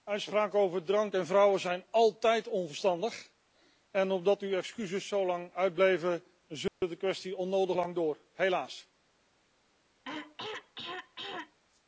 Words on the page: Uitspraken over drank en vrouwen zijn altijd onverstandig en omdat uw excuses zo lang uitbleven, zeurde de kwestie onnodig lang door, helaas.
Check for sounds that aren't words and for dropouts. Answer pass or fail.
fail